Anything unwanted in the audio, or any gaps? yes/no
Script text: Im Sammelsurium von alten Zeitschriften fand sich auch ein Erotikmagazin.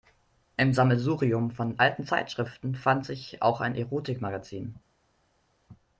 no